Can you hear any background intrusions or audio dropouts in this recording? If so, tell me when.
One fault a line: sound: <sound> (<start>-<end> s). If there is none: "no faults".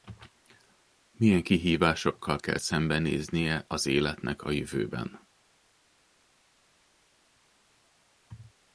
no faults